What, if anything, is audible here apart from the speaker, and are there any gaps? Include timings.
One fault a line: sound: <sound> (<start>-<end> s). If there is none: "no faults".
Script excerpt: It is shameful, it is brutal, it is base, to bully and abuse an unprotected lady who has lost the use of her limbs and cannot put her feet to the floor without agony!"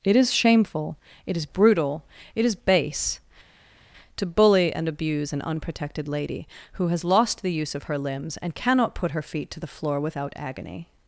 no faults